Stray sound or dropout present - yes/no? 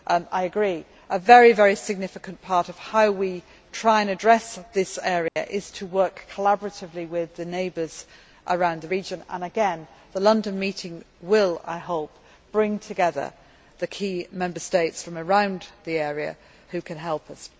yes